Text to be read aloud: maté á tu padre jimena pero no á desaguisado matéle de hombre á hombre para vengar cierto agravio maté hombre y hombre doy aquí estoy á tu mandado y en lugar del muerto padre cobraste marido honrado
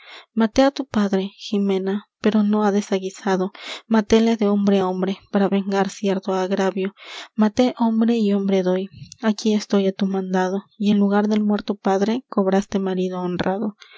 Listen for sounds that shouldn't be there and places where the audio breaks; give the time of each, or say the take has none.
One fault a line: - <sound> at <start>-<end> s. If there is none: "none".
none